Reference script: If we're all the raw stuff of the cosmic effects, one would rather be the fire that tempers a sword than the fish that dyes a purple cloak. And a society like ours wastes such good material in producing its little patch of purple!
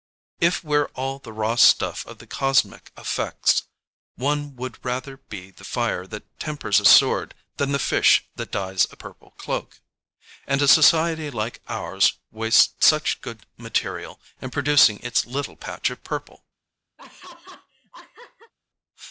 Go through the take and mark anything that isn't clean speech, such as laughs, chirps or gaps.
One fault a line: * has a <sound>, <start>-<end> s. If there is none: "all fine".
* has a laugh, 17.0-18.5 s